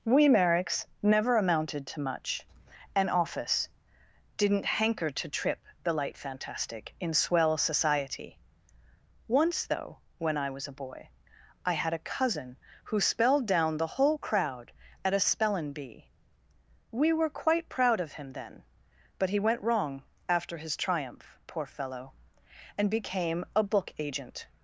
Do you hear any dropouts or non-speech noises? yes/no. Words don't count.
no